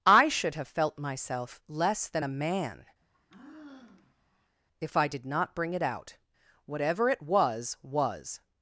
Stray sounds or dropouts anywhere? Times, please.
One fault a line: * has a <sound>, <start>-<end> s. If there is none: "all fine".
* has a sigh, 3.0-4.6 s